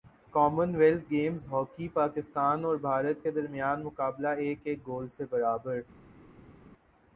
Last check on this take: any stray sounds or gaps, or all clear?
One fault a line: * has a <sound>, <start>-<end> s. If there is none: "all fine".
all fine